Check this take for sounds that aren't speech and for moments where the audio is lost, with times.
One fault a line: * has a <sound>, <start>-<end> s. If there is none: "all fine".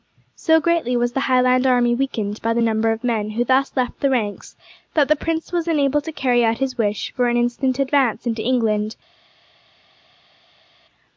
all fine